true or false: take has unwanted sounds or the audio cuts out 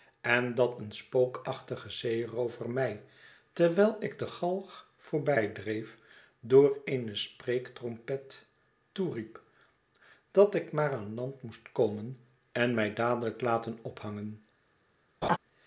true